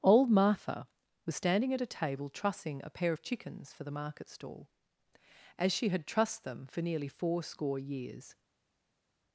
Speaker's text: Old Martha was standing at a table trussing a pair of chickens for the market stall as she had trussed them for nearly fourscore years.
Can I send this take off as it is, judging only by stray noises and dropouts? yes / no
yes